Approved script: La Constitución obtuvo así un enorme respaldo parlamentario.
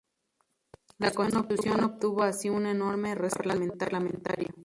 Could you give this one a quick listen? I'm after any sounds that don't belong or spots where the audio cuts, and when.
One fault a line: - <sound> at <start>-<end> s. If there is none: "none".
none